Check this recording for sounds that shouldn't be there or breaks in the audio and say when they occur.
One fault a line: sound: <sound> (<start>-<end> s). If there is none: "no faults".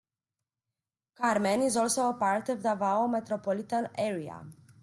no faults